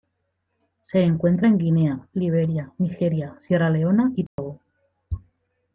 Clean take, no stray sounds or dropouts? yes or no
no